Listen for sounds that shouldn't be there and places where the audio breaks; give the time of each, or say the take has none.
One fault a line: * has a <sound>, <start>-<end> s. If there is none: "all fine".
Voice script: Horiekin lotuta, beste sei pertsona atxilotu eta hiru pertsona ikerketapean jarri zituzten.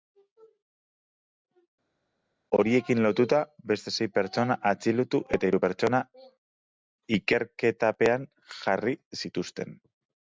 all fine